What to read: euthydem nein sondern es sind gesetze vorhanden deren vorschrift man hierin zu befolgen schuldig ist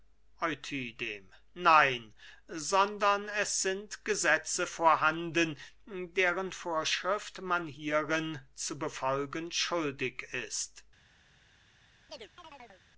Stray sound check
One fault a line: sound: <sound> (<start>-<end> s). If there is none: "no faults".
sound: chirp (12.1-12.8 s)